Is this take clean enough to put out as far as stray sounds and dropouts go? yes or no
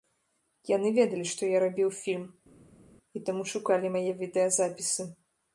yes